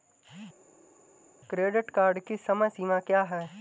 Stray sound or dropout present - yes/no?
no